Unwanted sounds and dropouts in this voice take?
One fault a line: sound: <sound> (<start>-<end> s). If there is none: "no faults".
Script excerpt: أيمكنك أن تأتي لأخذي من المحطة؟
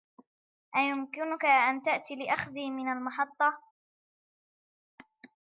no faults